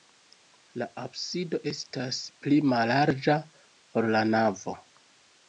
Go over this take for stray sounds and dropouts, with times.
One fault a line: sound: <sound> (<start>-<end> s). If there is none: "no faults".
no faults